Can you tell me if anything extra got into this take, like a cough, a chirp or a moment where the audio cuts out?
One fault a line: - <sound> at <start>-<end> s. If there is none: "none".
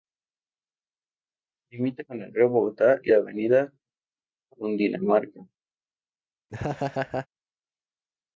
- laugh at 6.5-7.3 s